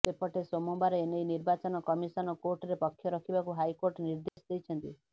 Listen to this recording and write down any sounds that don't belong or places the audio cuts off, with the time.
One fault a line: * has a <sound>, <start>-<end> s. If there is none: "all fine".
* has a dropout, 4.3-4.4 s